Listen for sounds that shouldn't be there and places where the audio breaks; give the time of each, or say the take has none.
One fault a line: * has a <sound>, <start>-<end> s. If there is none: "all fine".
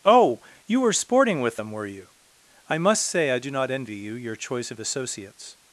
all fine